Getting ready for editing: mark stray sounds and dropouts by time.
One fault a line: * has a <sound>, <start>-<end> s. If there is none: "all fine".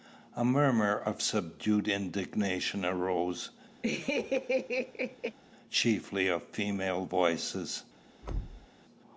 * has a laugh, 3.8-5.4 s
* has a thud, 8.2-8.7 s